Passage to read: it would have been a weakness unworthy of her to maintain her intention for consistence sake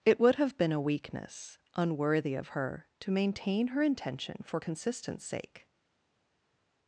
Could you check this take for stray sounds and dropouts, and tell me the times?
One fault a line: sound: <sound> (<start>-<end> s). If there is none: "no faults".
no faults